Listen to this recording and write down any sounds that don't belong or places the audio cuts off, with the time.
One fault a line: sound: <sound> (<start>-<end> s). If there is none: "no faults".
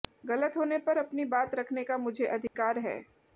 sound: dropout (2.5-2.6 s)